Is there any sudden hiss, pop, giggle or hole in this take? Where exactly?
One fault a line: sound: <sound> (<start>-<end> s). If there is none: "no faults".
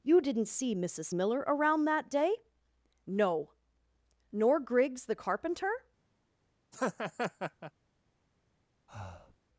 sound: laugh (6.7-7.7 s)
sound: breath (8.9-9.4 s)